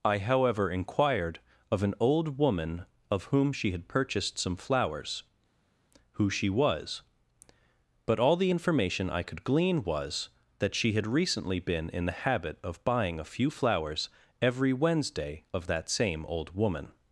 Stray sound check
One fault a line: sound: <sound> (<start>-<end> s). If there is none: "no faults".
no faults